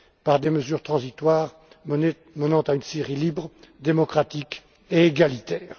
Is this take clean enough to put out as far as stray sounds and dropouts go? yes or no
yes